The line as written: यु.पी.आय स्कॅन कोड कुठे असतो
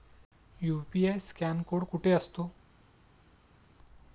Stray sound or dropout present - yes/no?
no